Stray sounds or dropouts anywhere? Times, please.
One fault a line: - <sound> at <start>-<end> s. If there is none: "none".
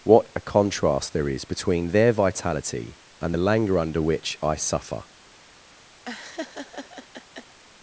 - laugh at 6.1-7.6 s